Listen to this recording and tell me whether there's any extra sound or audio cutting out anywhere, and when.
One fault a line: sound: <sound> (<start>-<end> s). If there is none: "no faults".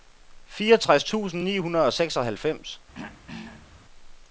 sound: throat clearing (2.9-3.7 s)